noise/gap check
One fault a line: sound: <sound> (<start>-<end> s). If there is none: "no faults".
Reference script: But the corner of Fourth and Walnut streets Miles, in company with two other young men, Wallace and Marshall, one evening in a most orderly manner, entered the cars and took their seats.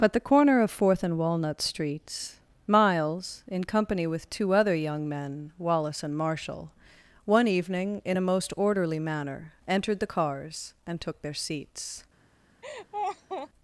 sound: laugh (12.6-13.5 s)